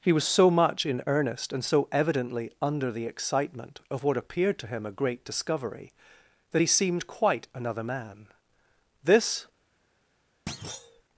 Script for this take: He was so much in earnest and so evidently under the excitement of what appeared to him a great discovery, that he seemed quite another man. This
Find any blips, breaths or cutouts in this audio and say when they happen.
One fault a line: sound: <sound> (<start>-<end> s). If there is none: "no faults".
sound: thud (10.5-11.0 s)